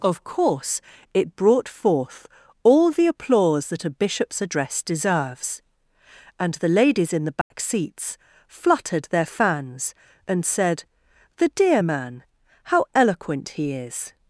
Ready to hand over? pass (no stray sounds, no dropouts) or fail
fail